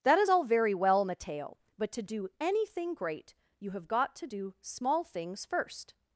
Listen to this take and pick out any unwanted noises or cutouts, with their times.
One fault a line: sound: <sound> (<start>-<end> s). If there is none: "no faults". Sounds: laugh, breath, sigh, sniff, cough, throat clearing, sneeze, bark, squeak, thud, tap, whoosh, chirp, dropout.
no faults